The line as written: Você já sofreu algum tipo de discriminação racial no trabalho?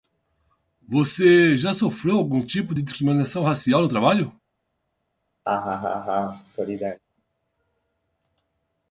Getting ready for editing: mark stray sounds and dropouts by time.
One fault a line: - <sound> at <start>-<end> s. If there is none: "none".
- laugh at 5.4-7.0 s